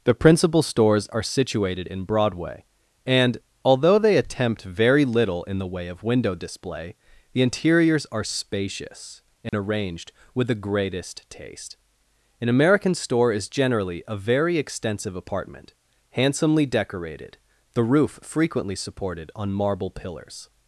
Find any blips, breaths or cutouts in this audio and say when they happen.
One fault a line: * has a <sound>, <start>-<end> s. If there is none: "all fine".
* has a dropout, 9.5-9.5 s